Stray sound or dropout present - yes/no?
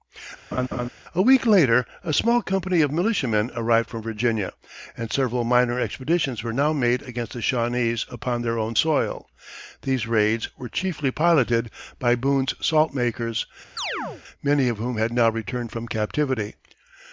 yes